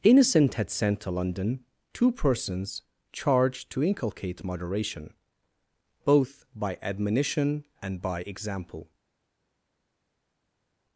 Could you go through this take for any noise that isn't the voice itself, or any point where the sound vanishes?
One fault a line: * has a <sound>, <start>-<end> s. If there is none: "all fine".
all fine